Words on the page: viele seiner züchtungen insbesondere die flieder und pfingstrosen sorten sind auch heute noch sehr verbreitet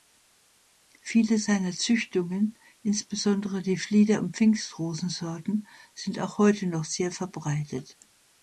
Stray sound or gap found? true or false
false